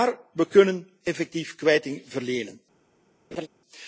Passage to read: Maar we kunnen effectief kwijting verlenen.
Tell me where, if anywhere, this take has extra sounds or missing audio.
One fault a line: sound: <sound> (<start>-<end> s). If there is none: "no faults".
sound: laugh (3.3-3.5 s)